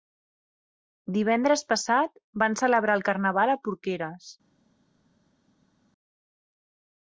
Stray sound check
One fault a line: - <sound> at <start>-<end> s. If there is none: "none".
none